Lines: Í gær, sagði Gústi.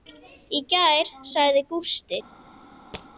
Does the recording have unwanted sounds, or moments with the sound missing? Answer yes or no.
yes